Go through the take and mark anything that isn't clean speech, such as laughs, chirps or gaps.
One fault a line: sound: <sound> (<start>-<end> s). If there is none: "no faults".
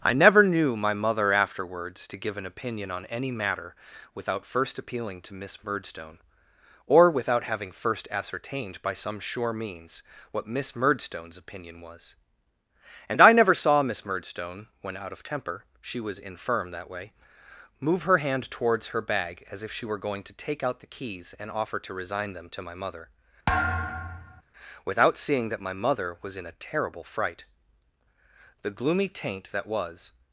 sound: thud (23.5-24.4 s)